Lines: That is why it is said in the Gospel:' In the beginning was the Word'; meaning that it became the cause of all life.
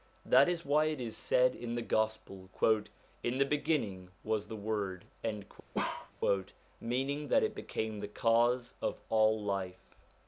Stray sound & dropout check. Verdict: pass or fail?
fail